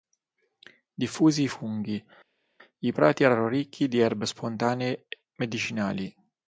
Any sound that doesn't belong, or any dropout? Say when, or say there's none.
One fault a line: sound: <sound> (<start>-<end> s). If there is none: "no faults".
no faults